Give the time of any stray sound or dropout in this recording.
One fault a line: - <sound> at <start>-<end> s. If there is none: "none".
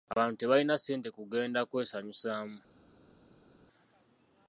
none